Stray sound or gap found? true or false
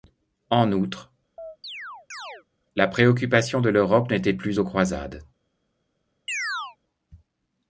true